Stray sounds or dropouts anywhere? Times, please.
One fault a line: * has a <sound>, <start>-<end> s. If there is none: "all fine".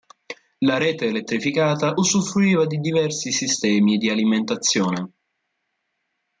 all fine